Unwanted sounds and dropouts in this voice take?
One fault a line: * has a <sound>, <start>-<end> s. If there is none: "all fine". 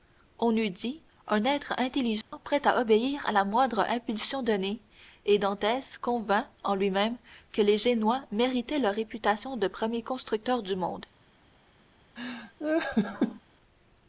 * has a dropout, 2.2-2.3 s
* has a laugh, 12.2-13.4 s